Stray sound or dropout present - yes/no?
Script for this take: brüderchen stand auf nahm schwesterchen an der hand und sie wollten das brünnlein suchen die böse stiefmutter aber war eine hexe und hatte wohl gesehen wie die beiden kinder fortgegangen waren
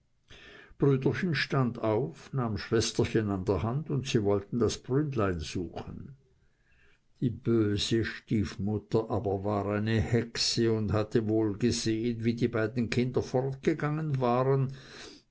no